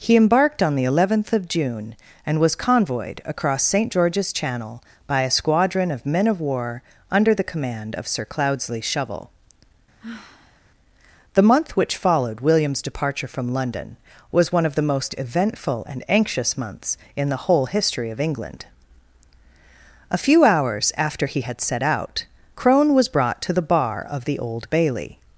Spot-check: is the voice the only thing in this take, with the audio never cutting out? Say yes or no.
no